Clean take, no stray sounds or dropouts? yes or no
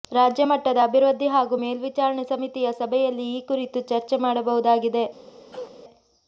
no